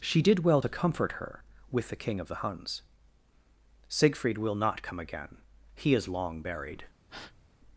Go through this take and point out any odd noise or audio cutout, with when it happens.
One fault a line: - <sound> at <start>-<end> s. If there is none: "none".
- breath at 7.1-7.4 s